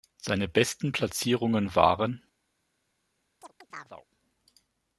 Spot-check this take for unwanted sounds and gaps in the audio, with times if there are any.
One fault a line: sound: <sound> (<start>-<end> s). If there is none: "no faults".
sound: chirp (3.4-4.1 s)